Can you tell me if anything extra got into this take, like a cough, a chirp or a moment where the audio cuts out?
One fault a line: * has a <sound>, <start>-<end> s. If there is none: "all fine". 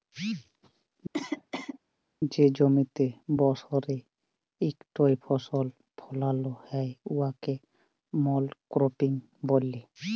* has a cough, 1.1-1.8 s